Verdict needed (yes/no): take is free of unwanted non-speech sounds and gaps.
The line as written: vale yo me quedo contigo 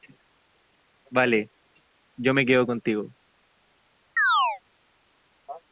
no